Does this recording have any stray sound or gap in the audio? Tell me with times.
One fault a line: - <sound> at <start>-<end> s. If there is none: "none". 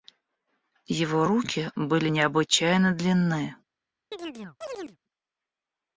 - chirp at 4.1-5.0 s